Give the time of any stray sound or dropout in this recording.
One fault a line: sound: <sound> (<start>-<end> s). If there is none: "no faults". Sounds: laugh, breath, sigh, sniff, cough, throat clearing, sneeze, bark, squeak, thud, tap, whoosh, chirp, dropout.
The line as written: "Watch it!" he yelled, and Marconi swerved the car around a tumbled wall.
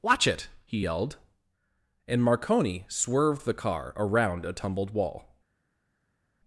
no faults